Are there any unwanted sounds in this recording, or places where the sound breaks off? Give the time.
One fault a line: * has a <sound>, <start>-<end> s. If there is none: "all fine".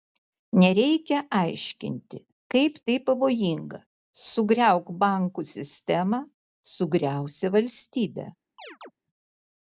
* has a chirp, 8.6-8.9 s